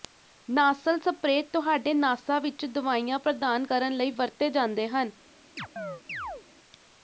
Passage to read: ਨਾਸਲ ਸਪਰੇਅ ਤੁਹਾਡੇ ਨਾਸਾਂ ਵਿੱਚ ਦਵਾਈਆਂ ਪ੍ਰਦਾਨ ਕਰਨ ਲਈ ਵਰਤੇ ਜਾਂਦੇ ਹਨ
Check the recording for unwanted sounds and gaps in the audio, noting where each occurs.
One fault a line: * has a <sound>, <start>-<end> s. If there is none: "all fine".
* has a chirp, 5.6-6.4 s